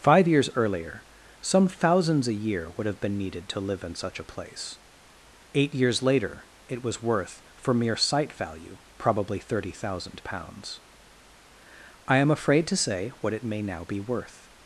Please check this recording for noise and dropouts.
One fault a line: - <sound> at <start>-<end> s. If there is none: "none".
none